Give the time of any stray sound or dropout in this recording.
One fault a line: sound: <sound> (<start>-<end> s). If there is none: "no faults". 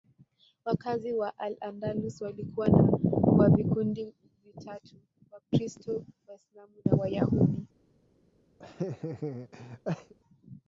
sound: laugh (8.6-10.1 s)